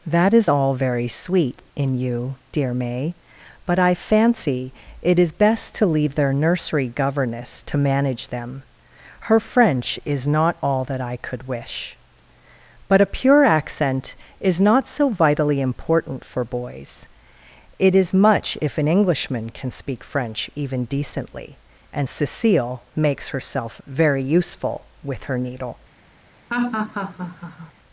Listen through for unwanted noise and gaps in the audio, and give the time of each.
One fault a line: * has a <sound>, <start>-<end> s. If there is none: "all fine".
* has a laugh, 26.5-27.7 s